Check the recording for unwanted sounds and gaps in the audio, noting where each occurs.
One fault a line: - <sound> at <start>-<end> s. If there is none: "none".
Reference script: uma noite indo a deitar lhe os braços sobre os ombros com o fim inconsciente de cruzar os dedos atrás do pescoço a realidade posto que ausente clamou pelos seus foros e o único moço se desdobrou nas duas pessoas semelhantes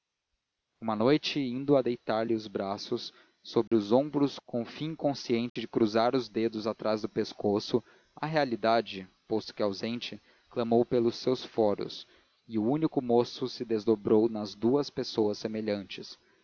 - dropout at 3.7-3.7 s
- dropout at 5.5-5.6 s